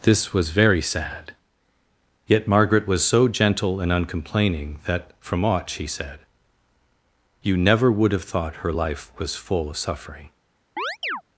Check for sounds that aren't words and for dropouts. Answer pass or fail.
fail